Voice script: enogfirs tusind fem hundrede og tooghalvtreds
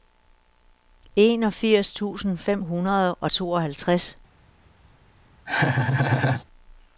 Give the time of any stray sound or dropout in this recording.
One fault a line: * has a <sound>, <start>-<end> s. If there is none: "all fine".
* has a laugh, 5.5-6.4 s